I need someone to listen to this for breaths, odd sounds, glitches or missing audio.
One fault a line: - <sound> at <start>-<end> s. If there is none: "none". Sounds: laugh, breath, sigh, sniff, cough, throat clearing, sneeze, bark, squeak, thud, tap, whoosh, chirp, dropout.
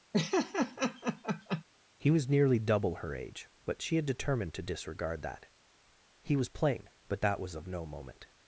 - laugh at 0.1-1.6 s